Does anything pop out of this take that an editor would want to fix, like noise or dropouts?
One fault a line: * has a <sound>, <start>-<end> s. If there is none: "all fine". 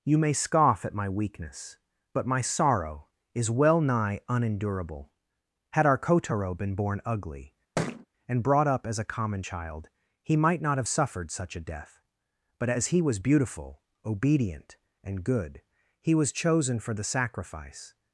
* has a thud, 7.8-8.1 s